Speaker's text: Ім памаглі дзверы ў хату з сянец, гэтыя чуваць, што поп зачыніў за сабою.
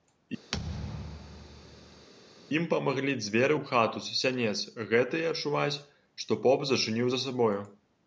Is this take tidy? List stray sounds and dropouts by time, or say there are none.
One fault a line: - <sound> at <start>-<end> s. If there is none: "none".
- thud at 0.5-2.1 s